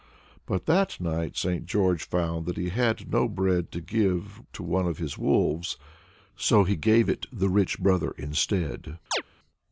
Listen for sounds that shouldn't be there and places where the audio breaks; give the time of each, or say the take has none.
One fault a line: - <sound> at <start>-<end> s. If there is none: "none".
- chirp at 9.1-9.2 s